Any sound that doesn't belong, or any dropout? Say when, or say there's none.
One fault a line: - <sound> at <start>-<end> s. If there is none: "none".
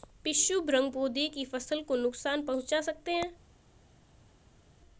none